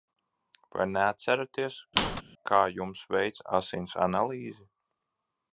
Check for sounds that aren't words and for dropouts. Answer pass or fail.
fail